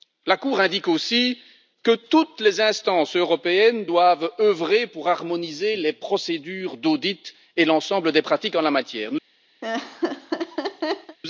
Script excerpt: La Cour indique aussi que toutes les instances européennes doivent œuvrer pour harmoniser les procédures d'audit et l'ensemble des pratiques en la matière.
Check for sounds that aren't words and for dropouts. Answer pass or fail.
fail